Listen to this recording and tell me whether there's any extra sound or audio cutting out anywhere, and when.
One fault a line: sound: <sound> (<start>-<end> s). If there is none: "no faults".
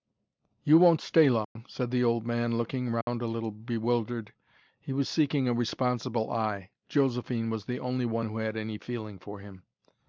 sound: dropout (1.4-1.6 s)
sound: dropout (3.0-3.1 s)